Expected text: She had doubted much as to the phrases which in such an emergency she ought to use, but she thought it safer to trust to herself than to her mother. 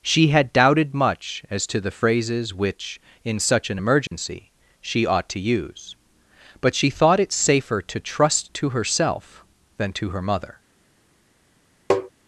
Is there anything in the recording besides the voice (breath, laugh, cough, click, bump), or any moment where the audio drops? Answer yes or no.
yes